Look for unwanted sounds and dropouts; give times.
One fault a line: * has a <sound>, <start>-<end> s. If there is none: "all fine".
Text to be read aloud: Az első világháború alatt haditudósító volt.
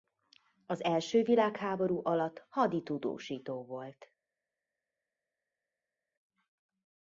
all fine